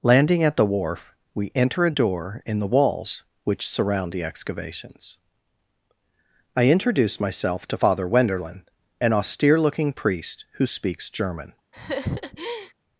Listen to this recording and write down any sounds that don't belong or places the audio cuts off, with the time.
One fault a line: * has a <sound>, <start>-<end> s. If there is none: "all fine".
* has a laugh, 11.7-12.7 s